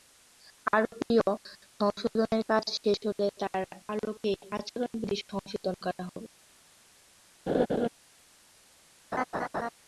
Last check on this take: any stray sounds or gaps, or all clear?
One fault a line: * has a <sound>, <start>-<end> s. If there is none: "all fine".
* has a laugh, 7.5-7.9 s
* has a laugh, 9.1-9.7 s